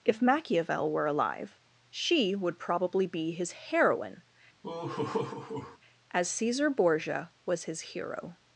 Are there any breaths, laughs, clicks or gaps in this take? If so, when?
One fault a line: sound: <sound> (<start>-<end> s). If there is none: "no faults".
sound: laugh (4.6-5.8 s)